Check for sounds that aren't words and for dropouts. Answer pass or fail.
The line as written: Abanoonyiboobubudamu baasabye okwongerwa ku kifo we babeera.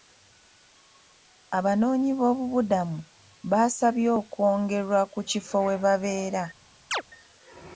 fail